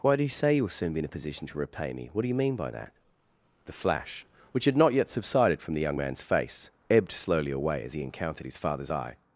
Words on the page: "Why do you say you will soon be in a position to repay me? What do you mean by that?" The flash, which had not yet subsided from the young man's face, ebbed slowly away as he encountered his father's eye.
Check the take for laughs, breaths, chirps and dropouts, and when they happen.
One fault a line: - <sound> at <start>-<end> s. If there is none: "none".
none